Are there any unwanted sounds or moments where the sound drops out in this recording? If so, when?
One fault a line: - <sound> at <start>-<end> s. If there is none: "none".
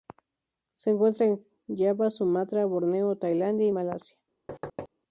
- thud at 4.5-4.9 s